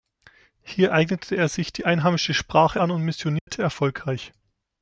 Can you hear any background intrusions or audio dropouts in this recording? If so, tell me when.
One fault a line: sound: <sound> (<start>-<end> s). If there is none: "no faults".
sound: dropout (3.4-3.5 s)